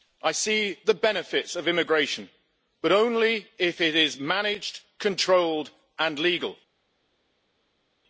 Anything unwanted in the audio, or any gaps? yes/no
no